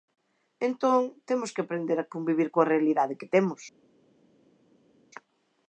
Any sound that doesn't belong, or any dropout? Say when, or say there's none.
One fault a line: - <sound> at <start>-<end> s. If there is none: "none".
none